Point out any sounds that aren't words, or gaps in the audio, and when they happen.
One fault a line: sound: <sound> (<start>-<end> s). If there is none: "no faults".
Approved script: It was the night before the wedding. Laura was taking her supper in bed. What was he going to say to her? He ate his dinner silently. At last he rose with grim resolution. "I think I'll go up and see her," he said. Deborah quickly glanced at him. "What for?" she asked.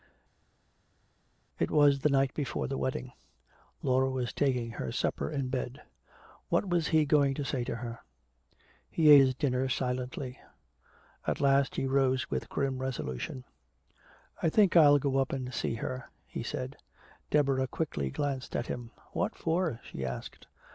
no faults